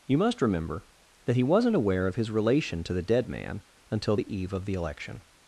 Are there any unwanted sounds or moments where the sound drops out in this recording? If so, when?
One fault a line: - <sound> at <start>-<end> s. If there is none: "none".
none